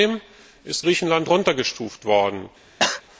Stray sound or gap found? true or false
true